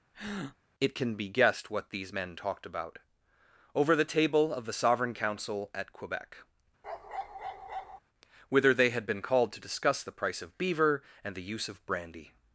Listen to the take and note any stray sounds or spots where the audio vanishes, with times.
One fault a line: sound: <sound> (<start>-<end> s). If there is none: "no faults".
sound: breath (0.1-0.6 s)
sound: bark (6.8-8.0 s)